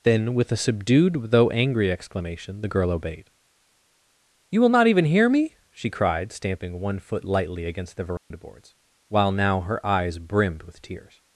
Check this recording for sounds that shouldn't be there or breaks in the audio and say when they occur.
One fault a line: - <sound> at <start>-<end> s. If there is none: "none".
- dropout at 8.2-8.3 s